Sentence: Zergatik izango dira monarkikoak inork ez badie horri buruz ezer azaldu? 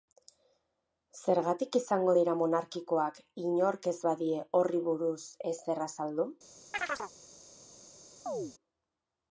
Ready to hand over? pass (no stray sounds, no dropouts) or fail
fail